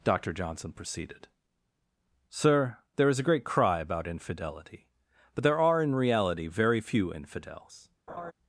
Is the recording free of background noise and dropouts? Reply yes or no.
no